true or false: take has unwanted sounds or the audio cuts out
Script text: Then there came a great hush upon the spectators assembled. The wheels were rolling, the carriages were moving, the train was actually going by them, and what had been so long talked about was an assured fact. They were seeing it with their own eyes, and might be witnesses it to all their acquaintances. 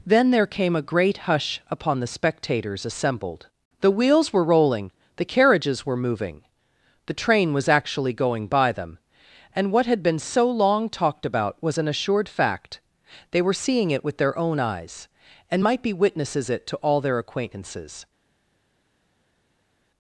false